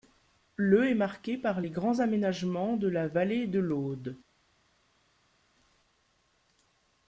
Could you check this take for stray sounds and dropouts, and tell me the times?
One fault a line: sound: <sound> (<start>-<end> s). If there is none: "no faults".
no faults